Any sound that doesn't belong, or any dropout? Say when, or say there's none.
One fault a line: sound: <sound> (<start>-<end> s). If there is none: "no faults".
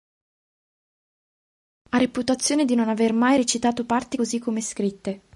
no faults